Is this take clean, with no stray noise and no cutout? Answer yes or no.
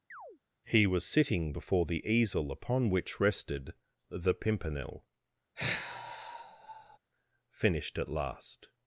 no